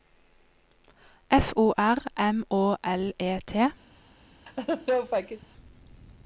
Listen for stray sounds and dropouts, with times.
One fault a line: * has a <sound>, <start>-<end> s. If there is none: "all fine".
* has a laugh, 4.5-5.5 s